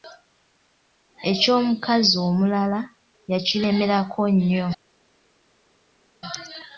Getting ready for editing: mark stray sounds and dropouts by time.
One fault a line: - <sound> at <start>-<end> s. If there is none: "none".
none